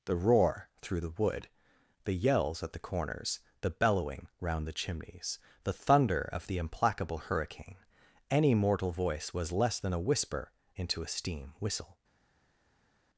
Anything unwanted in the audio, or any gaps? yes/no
no